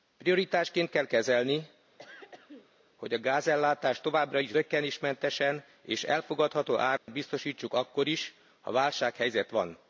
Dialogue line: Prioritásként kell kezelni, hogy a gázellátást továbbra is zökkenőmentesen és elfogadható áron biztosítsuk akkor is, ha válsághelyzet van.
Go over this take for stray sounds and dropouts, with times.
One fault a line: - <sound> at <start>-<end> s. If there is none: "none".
- throat clearing at 2.0-2.8 s
- dropout at 7.0-7.1 s